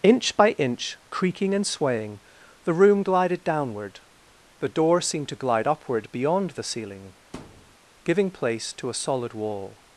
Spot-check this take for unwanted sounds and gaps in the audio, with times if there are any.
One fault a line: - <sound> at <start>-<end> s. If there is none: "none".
- thud at 7.3-7.8 s